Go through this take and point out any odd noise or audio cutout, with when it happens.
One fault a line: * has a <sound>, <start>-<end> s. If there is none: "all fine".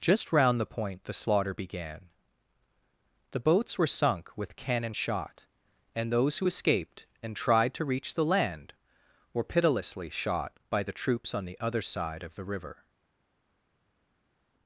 all fine